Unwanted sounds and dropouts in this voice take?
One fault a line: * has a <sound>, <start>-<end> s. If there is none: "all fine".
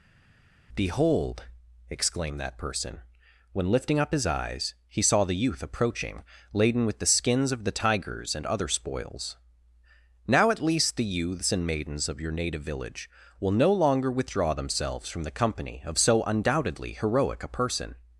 all fine